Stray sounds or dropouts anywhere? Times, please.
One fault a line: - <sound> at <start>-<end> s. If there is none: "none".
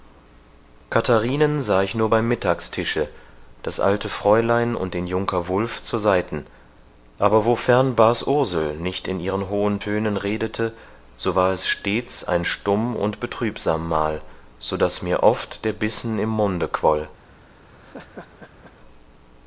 - laugh at 17.7-18.7 s